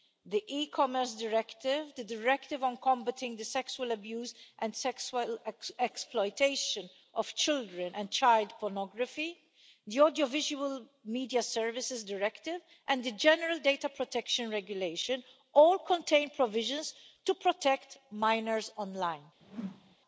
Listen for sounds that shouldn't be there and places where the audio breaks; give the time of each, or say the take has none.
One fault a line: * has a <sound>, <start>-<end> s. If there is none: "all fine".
* has a whoosh, 19.4-20.0 s